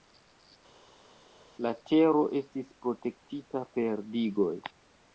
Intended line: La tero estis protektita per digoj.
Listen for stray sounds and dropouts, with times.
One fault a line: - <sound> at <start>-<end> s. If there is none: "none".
none